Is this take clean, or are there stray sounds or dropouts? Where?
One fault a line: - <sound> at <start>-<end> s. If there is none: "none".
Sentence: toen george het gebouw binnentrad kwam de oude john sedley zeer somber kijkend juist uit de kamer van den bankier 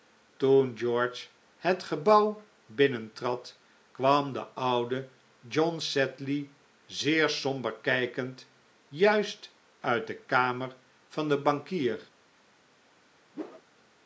- whoosh at 13.3-13.6 s